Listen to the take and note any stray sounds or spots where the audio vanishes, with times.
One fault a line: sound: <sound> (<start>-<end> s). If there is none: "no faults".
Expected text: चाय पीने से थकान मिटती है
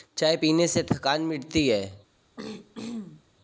sound: throat clearing (2.4-3.2 s)